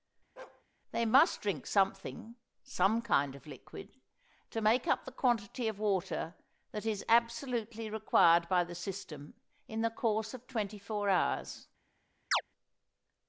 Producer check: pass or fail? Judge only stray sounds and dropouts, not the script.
fail